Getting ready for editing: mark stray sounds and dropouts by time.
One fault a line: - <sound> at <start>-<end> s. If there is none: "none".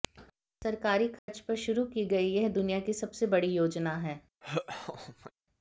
- dropout at 1.2-1.3 s
- laugh at 4.4-5.3 s